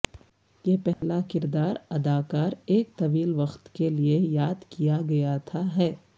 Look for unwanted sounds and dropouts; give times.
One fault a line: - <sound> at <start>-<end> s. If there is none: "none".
- dropout at 0.9-1.0 s